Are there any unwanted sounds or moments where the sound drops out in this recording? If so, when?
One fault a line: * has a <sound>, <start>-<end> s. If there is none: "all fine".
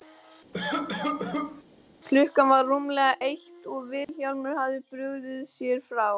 * has a cough, 0.5-1.6 s
* has a dropout, 4.0-4.1 s